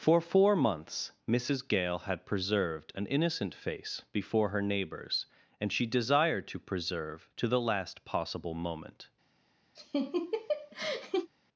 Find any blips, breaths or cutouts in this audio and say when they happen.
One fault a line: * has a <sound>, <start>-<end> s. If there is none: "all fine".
* has a laugh, 9.8-11.3 s